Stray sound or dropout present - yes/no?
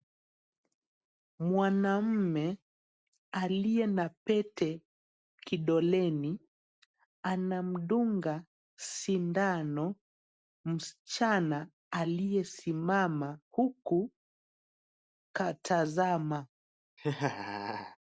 yes